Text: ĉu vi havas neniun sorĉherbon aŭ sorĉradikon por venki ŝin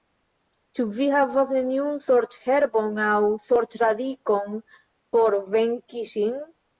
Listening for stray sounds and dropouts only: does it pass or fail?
pass